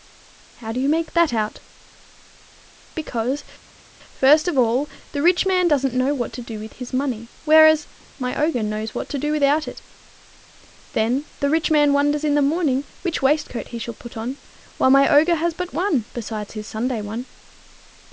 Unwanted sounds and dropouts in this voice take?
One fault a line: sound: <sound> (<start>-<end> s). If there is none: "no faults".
no faults